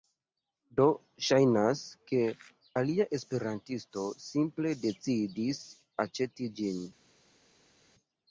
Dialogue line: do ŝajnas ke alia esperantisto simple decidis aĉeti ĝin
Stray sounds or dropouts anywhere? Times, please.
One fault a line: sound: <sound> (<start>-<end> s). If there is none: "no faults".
no faults